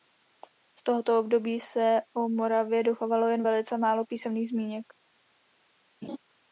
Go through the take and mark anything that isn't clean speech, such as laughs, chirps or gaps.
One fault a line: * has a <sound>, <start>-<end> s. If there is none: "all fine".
* has a laugh, 6.0-6.2 s